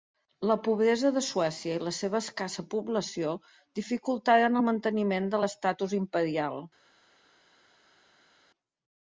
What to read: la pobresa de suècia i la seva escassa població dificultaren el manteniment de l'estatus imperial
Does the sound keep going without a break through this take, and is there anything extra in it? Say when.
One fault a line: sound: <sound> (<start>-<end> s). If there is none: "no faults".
no faults